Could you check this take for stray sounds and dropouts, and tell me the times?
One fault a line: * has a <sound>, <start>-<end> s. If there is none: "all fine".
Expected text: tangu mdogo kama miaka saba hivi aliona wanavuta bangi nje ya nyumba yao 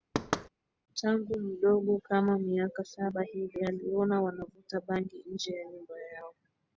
* has a thud, 0.1-0.5 s